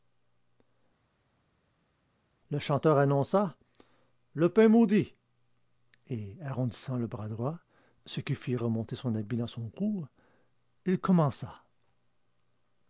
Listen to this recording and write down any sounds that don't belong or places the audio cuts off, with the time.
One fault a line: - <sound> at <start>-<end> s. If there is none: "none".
none